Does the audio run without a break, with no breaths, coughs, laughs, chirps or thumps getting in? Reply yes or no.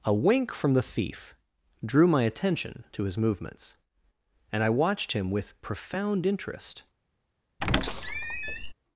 no